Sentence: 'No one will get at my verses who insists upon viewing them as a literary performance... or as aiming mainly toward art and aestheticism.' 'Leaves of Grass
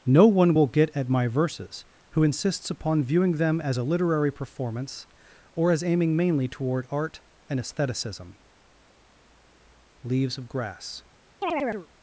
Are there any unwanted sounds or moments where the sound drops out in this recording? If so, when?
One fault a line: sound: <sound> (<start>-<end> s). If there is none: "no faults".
sound: chirp (11.4-11.9 s)